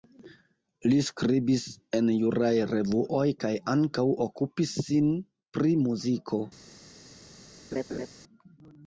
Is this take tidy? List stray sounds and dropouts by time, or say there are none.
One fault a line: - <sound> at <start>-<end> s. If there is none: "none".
- laugh at 7.7-8.1 s